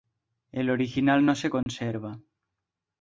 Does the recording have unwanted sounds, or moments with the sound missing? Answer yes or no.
yes